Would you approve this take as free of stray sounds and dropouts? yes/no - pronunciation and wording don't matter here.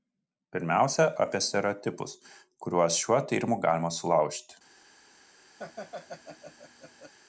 no